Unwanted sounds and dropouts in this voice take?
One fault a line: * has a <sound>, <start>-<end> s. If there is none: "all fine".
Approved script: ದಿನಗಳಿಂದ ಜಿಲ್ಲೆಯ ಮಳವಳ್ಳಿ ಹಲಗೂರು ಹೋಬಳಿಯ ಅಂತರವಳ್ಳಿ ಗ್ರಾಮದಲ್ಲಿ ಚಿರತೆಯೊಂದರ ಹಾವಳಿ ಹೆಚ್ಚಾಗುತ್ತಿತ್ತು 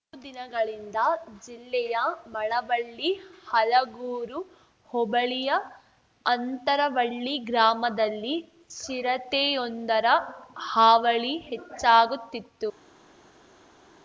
all fine